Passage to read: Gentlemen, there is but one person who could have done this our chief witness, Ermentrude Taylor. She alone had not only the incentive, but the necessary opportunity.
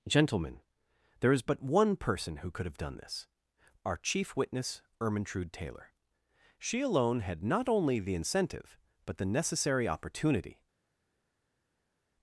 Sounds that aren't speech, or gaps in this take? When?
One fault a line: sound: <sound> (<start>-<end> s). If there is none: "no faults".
no faults